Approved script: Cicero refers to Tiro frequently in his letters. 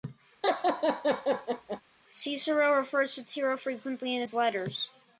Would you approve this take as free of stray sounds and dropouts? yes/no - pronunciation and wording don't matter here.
no